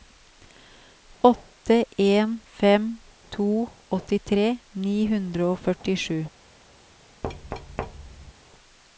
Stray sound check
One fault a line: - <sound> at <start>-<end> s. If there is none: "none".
- thud at 7.2-8.3 s